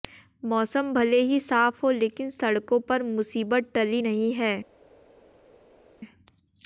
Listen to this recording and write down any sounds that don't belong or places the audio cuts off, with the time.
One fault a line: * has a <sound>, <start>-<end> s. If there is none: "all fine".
all fine